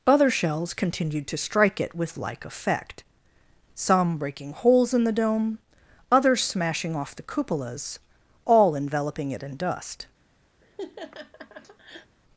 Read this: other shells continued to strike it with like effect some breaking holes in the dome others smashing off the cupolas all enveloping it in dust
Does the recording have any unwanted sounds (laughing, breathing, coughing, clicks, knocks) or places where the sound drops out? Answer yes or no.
yes